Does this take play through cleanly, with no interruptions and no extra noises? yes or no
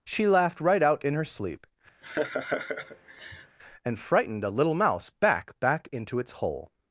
no